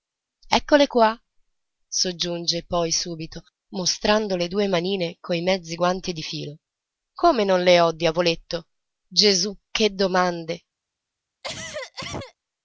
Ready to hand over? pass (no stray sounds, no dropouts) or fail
fail